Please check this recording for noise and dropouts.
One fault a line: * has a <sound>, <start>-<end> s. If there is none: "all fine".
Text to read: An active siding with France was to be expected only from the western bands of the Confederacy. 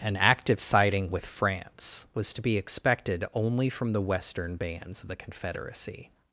all fine